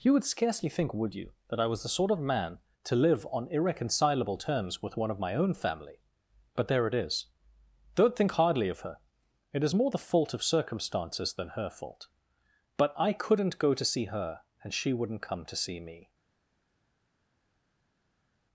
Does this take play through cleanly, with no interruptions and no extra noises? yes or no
yes